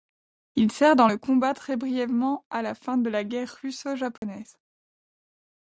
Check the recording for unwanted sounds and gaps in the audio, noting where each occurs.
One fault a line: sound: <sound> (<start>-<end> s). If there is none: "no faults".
sound: dropout (4.2-4.2 s)